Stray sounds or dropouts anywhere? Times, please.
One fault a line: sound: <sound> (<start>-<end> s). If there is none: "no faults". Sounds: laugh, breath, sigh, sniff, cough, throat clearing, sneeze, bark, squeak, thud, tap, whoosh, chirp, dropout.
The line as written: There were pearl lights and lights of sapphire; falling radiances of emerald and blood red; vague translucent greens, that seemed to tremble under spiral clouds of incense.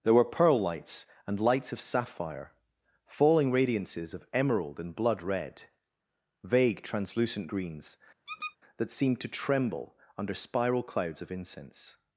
sound: squeak (8.3-8.6 s)